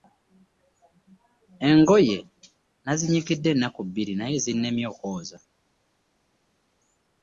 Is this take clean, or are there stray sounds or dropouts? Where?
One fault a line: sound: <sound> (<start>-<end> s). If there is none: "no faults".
no faults